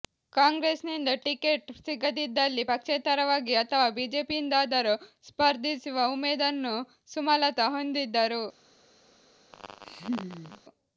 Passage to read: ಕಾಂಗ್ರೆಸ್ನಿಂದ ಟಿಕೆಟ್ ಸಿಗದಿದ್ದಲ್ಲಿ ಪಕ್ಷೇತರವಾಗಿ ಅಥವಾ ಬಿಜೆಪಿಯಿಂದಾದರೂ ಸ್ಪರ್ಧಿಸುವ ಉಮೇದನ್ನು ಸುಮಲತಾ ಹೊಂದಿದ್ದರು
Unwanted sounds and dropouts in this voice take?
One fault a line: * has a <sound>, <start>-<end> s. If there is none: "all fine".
* has a laugh, 9.5-10.6 s